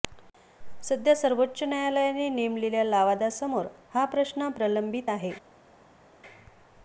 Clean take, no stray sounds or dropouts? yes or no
yes